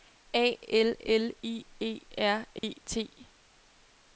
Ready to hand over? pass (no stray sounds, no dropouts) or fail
fail